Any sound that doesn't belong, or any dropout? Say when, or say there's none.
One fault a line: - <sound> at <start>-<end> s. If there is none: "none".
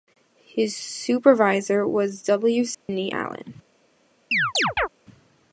- dropout at 2.7-2.9 s
- chirp at 4.3-4.9 s